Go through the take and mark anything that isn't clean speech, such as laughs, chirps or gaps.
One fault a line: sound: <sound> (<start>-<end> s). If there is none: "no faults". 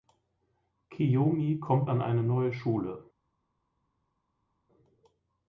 no faults